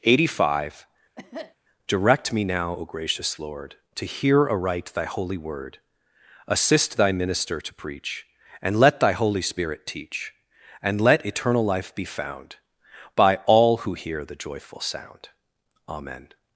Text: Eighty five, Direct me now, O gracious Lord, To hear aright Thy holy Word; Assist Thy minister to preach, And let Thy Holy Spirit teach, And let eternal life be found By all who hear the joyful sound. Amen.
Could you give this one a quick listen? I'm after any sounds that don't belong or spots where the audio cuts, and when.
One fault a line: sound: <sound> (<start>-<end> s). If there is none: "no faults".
sound: cough (1.2-1.6 s)